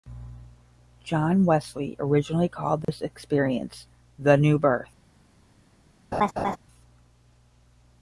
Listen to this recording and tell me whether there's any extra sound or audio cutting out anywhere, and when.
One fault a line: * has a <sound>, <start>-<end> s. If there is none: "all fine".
* has a dropout, 2.8-2.9 s
* has a laugh, 6.1-6.6 s